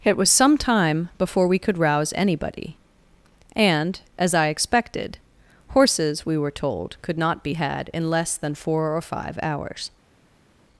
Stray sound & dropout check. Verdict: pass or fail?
pass